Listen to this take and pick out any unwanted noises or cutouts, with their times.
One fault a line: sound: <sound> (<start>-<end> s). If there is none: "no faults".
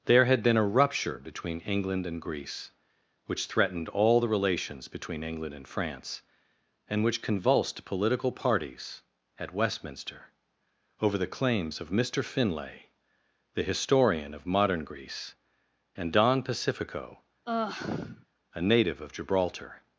sound: sigh (17.5-18.3 s)